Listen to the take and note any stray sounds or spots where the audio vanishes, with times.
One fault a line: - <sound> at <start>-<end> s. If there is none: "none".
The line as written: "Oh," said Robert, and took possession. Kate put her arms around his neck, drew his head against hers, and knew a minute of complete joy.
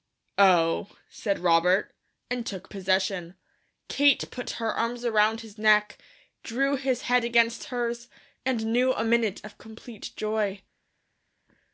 none